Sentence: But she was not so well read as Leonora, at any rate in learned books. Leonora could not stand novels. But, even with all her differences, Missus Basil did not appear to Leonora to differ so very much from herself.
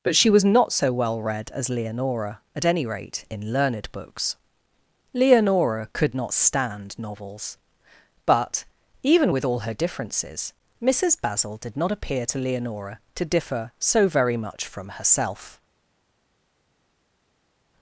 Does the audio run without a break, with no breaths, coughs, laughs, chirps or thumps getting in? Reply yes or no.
yes